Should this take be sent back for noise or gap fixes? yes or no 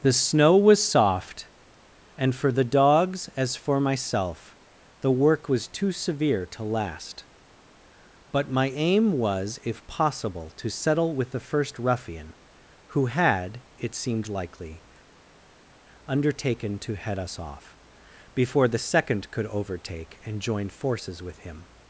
no